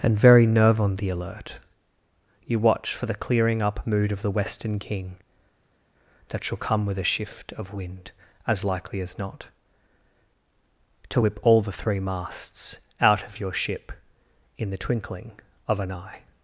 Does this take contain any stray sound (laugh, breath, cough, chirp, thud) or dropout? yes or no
no